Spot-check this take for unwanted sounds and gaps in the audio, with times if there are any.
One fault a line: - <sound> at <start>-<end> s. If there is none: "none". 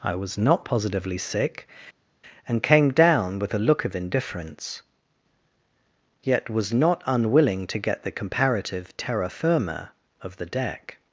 none